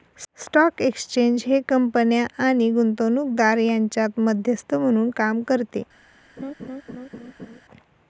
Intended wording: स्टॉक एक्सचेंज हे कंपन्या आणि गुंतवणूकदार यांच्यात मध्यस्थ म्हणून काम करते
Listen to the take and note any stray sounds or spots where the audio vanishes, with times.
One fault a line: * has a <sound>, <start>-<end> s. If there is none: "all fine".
* has a laugh, 6.4-7.6 s